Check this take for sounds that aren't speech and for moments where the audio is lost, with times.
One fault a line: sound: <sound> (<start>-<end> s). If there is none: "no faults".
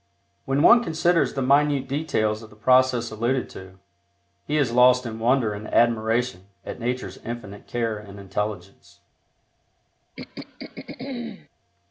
sound: throat clearing (10.2-11.5 s)